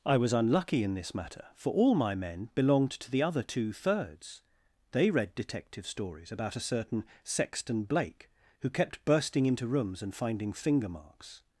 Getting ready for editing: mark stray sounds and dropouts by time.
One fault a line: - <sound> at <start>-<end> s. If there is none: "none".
none